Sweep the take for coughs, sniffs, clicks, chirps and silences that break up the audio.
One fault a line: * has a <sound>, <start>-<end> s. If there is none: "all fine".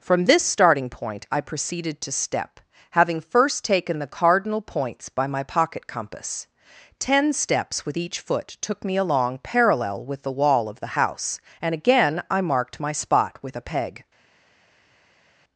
all fine